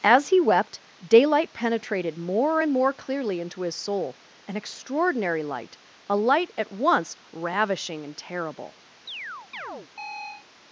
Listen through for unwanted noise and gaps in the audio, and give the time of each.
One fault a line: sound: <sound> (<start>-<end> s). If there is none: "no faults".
sound: chirp (9.1-10.5 s)